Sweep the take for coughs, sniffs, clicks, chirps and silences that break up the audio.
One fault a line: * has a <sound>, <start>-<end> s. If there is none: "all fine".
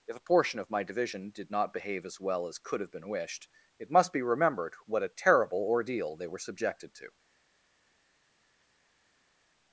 all fine